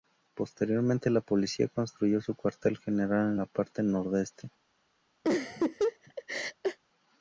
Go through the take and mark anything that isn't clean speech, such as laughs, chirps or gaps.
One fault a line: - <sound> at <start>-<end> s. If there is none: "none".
- laugh at 5.2-6.8 s